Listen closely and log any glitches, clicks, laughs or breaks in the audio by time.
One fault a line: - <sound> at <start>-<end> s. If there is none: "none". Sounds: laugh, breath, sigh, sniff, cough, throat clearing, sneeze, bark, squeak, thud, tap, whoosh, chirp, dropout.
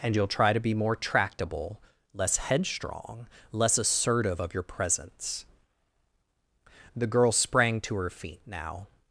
none